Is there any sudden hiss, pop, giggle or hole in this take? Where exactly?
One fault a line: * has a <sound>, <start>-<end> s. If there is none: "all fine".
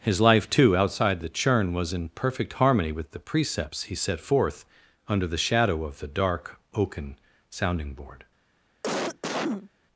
* has a cough, 8.8-9.7 s